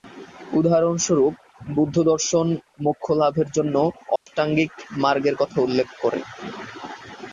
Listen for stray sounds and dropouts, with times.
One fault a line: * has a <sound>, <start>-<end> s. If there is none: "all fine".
* has a dropout, 4.2-4.3 s